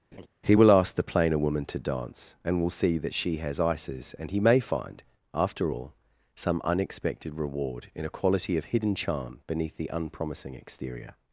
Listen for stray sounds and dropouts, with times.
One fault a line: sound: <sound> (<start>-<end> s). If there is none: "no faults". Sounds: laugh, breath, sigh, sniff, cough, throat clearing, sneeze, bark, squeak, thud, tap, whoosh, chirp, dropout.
sound: laugh (0.1-0.3 s)